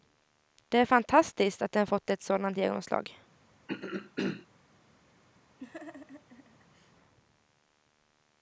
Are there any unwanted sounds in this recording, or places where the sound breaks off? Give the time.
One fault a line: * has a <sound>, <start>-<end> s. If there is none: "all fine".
* has a throat clearing, 3.7-4.5 s
* has a laugh, 5.6-6.9 s